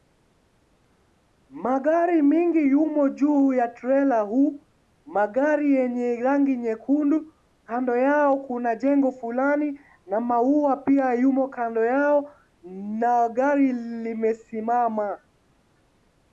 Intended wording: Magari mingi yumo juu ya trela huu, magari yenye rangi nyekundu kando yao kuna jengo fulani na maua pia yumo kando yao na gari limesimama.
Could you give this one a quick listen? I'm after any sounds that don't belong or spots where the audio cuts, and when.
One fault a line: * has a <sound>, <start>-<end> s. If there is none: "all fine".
all fine